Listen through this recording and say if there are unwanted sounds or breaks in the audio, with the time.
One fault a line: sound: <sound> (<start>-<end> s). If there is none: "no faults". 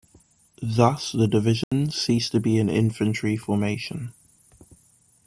sound: dropout (1.6-1.7 s)